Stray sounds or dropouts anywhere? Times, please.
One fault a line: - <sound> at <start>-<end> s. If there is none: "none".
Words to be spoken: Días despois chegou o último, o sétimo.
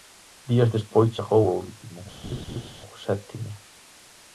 - laugh at 2.2-2.7 s